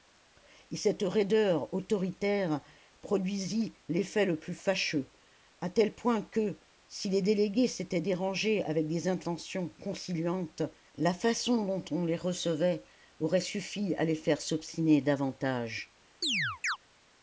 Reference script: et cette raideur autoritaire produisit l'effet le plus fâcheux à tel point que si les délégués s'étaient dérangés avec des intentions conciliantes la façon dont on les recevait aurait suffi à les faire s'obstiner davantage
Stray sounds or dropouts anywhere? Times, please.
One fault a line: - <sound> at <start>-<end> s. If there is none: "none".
- chirp at 16.2-16.8 s